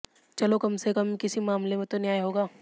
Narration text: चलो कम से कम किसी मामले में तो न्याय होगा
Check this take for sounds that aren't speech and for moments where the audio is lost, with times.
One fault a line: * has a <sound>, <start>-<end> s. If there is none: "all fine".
all fine